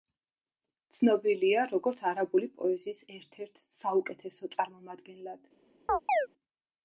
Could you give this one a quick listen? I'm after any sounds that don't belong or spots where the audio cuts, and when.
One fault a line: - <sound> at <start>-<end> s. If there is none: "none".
- chirp at 5.9-6.3 s